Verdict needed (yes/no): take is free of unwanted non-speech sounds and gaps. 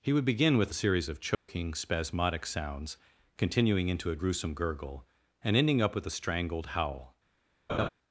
no